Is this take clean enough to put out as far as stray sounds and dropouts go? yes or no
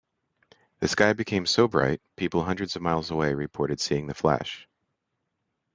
yes